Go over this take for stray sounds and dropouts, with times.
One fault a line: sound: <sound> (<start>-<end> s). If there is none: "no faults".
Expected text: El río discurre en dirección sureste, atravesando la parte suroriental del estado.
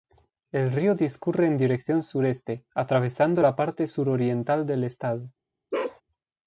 sound: bark (5.7-6.0 s)